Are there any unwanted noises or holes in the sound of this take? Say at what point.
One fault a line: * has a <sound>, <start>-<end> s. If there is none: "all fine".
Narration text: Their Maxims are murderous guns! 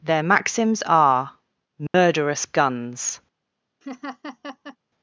* has a dropout, 1.9-1.9 s
* has a laugh, 3.8-4.8 s